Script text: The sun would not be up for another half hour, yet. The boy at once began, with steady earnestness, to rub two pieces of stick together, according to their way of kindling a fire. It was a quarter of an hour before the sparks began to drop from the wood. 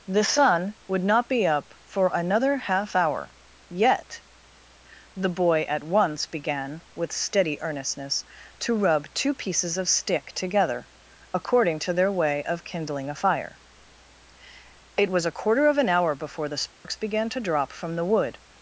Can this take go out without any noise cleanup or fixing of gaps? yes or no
no